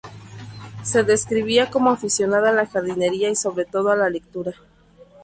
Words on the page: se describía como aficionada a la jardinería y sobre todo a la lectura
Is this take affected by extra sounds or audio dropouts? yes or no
no